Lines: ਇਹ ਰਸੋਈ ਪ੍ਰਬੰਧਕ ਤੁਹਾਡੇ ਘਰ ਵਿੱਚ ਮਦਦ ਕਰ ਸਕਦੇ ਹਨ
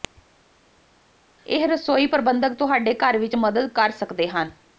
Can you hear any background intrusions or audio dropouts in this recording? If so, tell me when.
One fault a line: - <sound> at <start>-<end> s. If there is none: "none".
none